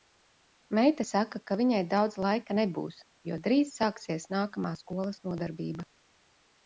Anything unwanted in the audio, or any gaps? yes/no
no